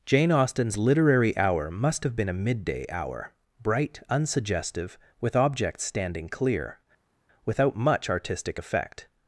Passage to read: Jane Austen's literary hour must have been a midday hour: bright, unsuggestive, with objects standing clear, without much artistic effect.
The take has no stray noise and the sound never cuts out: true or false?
true